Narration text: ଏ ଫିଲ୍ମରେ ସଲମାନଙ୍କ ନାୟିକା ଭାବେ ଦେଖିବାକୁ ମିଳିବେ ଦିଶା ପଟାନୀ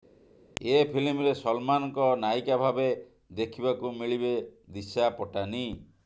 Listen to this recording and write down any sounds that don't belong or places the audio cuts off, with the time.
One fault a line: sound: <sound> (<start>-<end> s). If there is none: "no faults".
no faults